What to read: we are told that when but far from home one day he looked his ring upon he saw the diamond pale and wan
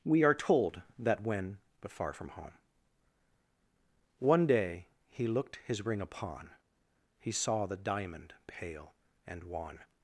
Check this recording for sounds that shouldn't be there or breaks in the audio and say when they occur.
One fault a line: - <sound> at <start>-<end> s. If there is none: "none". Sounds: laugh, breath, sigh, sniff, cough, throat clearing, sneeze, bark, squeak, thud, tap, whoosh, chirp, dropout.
none